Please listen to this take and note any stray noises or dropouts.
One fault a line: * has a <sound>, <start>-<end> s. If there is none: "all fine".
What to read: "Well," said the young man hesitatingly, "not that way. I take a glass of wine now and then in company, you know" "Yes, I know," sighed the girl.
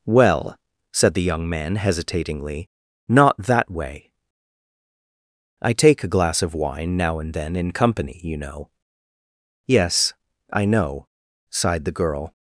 all fine